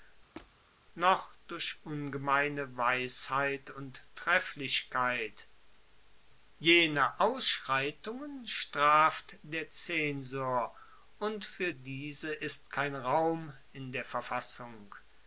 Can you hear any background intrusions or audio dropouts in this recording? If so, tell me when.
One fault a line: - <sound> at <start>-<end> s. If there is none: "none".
- squeak at 0.3-0.6 s